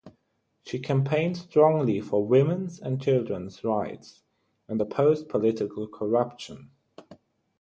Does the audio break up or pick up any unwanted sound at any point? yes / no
no